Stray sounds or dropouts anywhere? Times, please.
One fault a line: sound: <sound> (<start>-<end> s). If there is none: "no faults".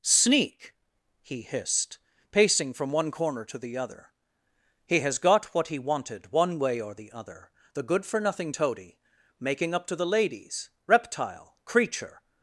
no faults